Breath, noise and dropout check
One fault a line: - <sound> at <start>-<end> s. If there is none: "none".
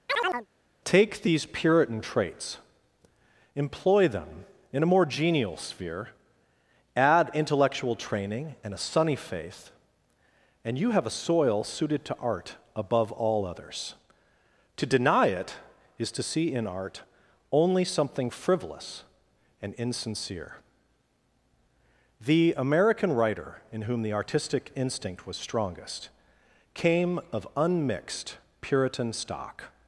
- chirp at 0.1-0.5 s